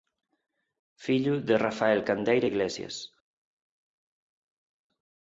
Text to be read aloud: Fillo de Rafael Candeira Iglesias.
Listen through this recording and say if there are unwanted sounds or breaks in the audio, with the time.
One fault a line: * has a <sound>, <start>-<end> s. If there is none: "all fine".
all fine